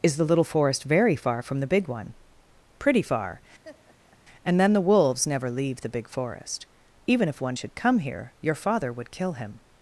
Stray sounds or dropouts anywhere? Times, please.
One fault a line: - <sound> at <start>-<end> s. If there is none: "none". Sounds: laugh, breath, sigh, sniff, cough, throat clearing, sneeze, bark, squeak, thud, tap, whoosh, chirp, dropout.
- laugh at 3.6-4.2 s